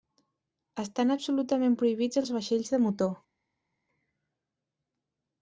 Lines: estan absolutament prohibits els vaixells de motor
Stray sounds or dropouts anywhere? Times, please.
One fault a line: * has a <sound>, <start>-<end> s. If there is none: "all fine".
all fine